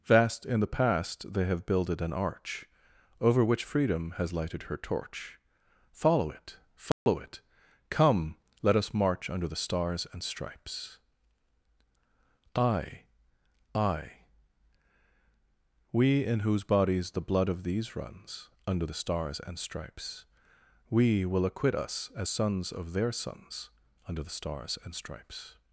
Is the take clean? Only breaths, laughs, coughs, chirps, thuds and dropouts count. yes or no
no